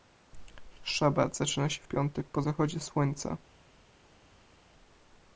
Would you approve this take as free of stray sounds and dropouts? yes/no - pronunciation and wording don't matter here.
yes